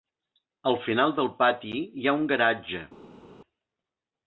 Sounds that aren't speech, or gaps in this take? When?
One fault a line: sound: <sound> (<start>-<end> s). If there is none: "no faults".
no faults